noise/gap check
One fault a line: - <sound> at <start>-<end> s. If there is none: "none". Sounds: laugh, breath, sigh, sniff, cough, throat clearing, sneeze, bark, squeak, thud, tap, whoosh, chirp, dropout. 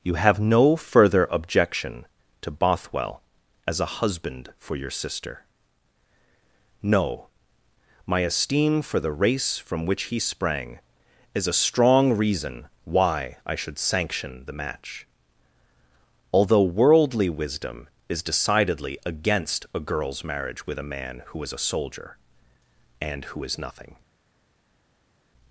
none